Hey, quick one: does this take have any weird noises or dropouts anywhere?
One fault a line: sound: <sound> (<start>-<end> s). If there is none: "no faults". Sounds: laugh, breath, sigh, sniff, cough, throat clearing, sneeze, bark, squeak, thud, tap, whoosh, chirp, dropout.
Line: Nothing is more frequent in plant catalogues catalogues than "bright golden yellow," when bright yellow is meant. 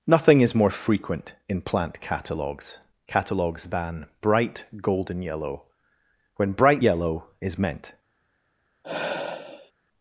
sound: sigh (8.8-9.7 s)